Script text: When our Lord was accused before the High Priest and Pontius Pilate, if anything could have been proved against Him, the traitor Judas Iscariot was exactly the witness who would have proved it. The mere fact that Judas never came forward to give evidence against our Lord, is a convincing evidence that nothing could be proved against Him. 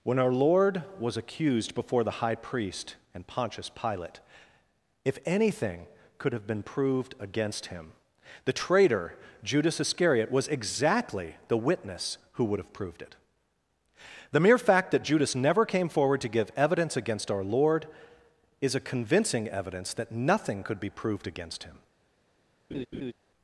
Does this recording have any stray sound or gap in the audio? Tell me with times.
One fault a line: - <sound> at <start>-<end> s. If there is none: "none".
- laugh at 22.7-23.1 s